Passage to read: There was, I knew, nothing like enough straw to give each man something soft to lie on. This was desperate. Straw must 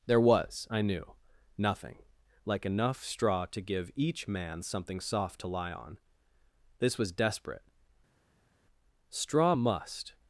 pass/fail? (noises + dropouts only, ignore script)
pass